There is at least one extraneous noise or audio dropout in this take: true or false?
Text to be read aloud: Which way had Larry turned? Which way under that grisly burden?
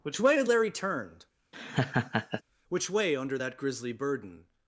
true